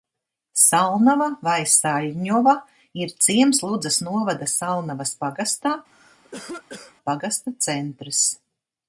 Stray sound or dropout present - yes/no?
yes